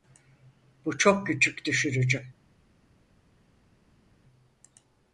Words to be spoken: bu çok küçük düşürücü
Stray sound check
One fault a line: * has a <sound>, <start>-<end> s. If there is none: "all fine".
all fine